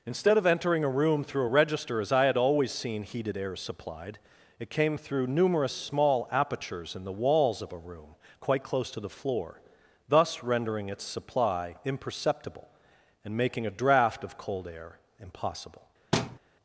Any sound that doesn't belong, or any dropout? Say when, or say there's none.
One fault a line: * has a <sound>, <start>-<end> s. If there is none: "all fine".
* has a thud, 16.1-16.4 s